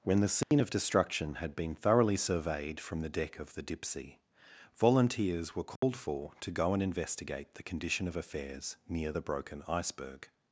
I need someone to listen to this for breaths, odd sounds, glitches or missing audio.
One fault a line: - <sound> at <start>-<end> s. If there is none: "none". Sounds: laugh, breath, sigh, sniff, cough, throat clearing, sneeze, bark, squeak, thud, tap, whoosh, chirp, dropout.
- dropout at 0.4-0.5 s
- dropout at 5.8-5.8 s